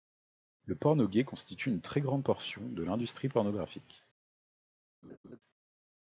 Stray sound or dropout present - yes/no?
yes